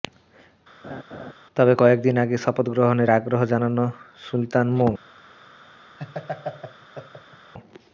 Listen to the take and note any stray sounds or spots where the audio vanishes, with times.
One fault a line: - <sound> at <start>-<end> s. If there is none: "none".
- laugh at 0.8-1.3 s
- laugh at 6.0-7.5 s